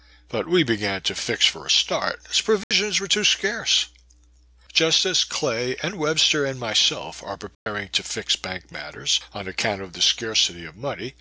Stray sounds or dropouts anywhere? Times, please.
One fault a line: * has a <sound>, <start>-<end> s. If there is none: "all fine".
* has a dropout, 2.6-2.7 s
* has a dropout, 7.5-7.7 s